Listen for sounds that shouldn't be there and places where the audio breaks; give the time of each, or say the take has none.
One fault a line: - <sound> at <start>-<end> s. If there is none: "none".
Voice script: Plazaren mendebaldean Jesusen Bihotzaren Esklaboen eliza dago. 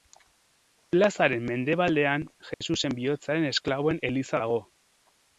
- dropout at 2.5-2.6 s